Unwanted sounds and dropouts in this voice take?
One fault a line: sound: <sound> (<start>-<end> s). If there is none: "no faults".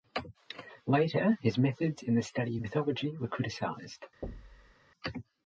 sound: thud (4.2-4.8 s)